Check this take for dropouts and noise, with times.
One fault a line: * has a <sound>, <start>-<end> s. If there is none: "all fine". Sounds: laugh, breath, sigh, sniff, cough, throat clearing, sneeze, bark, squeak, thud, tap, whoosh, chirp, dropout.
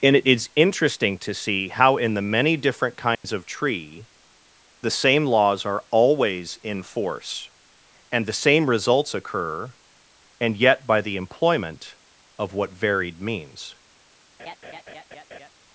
* has a dropout, 3.1-3.2 s
* has a laugh, 14.4-15.5 s